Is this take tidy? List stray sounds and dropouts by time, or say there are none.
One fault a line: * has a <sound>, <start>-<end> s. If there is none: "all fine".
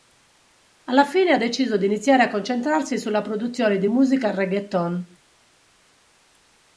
all fine